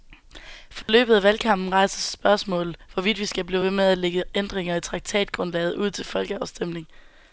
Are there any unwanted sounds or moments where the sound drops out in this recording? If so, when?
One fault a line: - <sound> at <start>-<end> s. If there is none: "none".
- dropout at 0.8-0.9 s